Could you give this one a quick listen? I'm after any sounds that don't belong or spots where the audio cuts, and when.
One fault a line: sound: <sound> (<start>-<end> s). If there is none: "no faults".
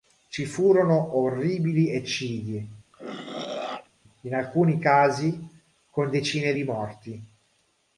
sound: throat clearing (2.9-3.9 s)